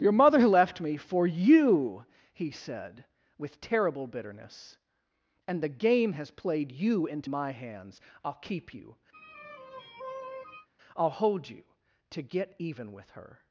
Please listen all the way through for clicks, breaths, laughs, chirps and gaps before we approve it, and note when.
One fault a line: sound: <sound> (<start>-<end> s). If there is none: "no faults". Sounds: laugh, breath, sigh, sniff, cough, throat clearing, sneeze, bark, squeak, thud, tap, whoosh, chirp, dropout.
sound: sigh (9.1-10.7 s)